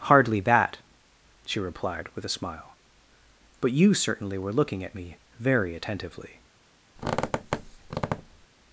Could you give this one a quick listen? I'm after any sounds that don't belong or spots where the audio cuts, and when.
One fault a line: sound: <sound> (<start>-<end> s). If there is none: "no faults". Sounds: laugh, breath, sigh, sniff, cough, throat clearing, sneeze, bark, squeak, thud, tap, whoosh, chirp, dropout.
sound: squeak (7.0-8.5 s)